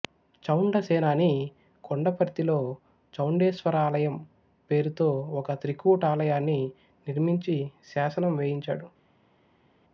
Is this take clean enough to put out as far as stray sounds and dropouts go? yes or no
yes